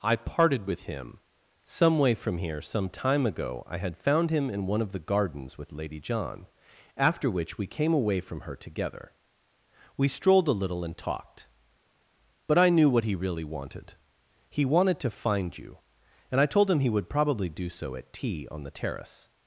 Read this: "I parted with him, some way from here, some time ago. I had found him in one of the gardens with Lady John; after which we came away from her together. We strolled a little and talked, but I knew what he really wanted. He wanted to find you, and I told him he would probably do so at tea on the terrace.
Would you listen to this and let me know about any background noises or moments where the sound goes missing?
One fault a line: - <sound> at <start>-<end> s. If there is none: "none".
none